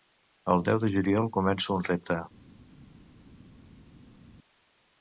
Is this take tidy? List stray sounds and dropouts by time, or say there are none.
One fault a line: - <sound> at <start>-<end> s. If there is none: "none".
none